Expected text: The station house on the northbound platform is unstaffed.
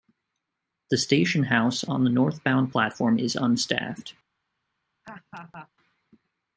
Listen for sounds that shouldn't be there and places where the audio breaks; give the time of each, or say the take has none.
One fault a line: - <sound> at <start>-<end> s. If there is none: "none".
- laugh at 5.0-5.7 s